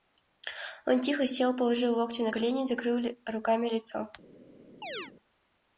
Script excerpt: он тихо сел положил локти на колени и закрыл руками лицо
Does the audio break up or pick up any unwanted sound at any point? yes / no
yes